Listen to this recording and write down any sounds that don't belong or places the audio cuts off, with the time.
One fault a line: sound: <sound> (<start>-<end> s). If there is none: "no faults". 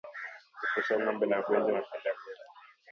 no faults